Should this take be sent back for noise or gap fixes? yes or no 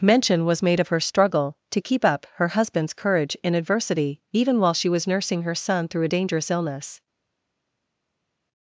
no